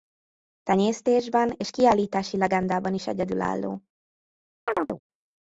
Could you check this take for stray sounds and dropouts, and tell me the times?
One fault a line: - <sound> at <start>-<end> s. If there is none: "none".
- chirp at 4.7-5.0 s